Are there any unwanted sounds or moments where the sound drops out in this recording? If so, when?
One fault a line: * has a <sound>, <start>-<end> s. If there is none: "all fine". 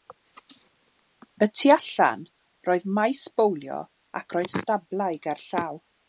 all fine